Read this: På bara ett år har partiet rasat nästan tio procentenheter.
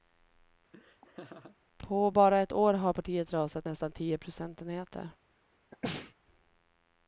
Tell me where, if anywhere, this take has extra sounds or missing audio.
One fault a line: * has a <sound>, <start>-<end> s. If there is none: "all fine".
* has a laugh, 0.7-1.6 s
* has a sneeze, 5.7-6.1 s